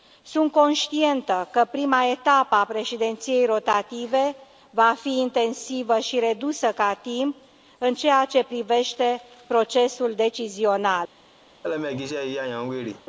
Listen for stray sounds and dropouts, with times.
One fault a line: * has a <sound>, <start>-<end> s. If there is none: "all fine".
* has a laugh, 11.6-13.1 s